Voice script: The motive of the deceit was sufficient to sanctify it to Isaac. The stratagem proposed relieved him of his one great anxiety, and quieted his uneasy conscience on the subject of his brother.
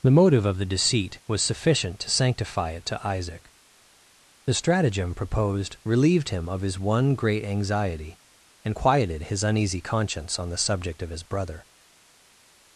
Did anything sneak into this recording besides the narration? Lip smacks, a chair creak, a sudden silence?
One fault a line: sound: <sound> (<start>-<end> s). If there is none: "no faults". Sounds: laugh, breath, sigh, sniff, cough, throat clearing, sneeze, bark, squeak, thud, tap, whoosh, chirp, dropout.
no faults